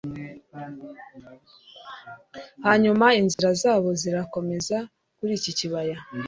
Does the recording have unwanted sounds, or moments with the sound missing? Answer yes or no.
yes